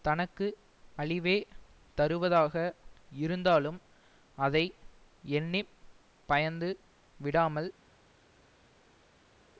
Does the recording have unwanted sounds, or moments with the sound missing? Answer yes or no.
no